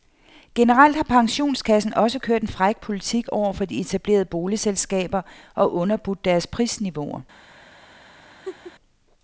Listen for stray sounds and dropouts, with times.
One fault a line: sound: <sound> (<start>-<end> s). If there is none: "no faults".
sound: laugh (8.4-8.7 s)